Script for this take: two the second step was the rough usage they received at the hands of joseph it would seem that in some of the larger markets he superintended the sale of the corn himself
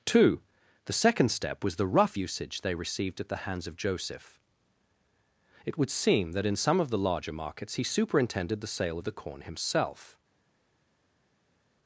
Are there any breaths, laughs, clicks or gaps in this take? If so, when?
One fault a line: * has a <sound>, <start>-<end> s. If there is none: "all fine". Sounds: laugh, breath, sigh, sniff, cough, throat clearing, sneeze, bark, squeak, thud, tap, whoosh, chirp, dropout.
all fine